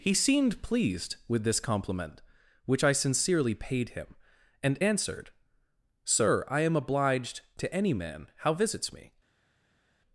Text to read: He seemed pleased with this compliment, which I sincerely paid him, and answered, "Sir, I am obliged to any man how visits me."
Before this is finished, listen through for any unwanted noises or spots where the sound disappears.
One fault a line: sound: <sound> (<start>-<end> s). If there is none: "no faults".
no faults